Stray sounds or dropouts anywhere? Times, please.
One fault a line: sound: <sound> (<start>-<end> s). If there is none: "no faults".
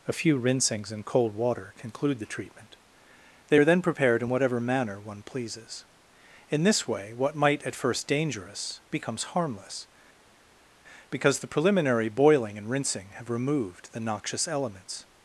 no faults